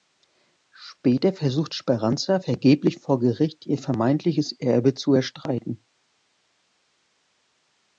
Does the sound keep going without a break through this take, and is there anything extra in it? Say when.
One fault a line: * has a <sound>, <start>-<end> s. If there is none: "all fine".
all fine